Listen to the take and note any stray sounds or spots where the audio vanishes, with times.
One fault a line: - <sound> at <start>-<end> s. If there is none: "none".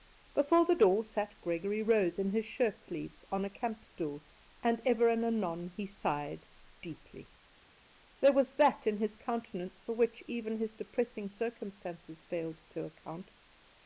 none